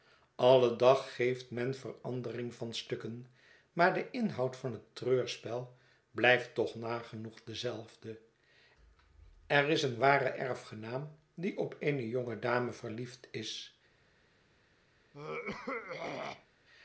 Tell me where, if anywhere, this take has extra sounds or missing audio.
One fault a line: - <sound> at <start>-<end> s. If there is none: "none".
- throat clearing at 15.1-16.5 s